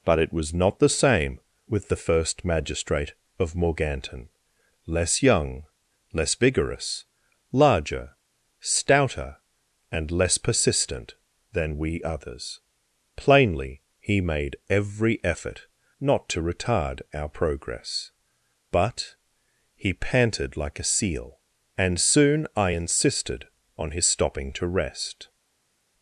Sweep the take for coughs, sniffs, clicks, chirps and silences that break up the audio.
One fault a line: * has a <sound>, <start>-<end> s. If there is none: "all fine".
all fine